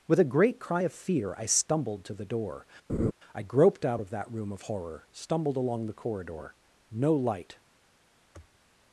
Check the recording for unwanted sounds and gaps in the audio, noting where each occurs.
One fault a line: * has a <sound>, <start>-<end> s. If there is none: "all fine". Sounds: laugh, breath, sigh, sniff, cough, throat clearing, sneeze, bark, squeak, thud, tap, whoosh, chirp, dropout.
* has a laugh, 2.9-3.1 s
* has a sniff, 8.3-8.6 s